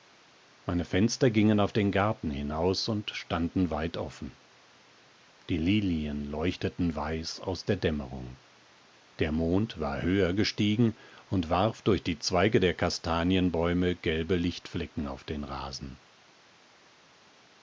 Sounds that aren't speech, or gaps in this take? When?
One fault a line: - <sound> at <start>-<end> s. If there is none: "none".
none